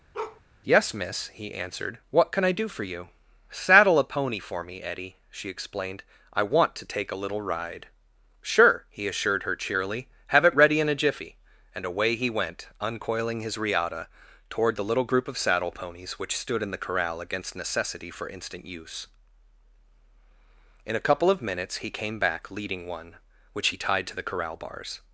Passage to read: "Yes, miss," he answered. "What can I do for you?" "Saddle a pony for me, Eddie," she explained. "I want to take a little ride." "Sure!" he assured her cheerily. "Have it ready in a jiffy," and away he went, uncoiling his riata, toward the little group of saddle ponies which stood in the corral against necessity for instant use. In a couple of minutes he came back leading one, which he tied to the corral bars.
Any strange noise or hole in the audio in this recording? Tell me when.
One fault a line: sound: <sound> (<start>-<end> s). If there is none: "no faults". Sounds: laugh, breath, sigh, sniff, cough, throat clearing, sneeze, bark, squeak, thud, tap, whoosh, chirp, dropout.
sound: bark (0.1-0.4 s)